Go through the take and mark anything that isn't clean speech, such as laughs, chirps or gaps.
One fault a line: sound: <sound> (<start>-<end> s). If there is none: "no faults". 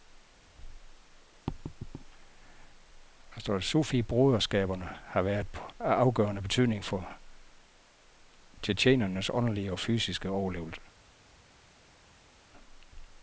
no faults